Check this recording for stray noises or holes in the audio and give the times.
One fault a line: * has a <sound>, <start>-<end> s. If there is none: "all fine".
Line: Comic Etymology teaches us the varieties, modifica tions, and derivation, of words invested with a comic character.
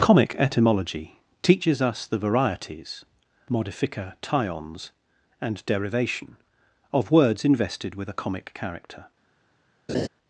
* has a laugh, 9.9-10.1 s